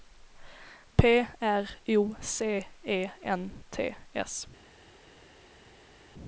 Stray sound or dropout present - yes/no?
no